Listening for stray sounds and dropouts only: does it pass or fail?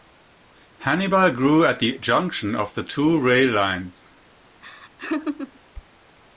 fail